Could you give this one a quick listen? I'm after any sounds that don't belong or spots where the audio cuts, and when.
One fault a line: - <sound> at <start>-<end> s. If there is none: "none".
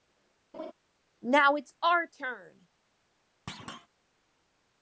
- laugh at 0.5-0.7 s
- thud at 3.5-3.9 s